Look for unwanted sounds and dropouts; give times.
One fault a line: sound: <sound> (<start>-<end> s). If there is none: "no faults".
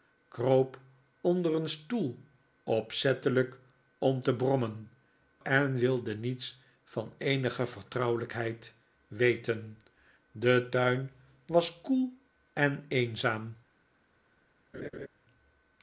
sound: laugh (14.7-15.1 s)